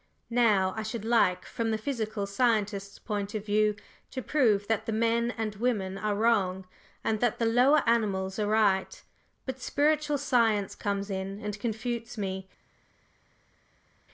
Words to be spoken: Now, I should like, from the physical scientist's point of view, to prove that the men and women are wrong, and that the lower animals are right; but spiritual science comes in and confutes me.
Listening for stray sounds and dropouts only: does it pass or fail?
pass